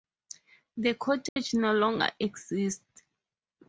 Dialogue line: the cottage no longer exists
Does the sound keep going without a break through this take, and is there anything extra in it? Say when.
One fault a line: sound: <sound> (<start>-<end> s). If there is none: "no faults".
sound: dropout (1.3-1.4 s)